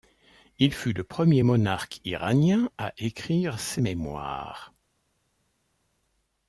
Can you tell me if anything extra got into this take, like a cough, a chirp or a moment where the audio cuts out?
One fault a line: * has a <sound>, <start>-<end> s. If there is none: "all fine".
all fine